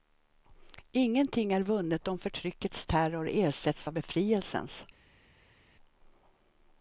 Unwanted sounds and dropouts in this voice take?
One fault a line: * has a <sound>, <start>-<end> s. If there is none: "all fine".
all fine